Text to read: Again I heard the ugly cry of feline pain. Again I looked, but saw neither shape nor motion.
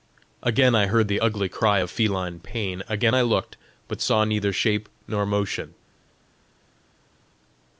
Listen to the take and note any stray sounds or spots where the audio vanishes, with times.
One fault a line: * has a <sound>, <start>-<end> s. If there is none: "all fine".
all fine